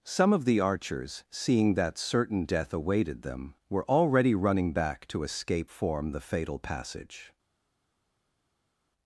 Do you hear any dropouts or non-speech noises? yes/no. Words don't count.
no